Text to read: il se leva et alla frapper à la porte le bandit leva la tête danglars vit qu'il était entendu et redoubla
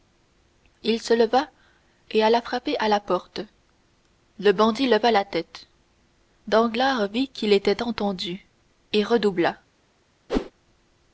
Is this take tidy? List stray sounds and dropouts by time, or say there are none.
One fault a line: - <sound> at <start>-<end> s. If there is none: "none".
- whoosh at 10.3-10.5 s